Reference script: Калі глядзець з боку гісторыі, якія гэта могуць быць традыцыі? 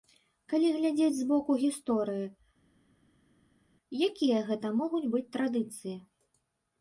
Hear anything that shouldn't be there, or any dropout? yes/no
no